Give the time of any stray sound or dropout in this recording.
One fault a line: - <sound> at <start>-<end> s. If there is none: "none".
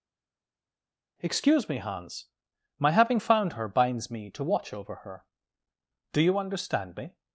none